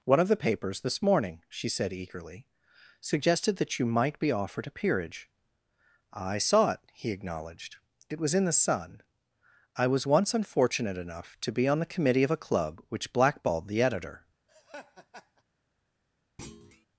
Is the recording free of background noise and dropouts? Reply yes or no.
no